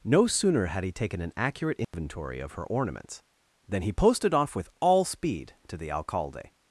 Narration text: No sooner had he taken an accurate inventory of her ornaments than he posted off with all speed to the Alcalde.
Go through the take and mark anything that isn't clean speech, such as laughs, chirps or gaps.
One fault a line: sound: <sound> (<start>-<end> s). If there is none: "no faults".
sound: dropout (1.8-1.9 s)